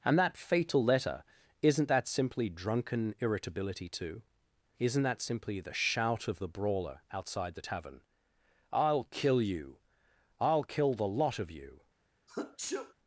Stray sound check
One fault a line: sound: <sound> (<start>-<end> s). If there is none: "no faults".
sound: sneeze (12.3-12.9 s)